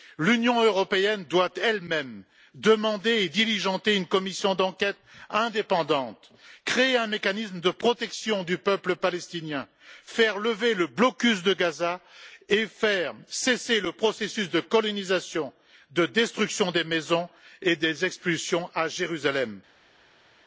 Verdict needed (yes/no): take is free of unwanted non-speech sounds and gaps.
yes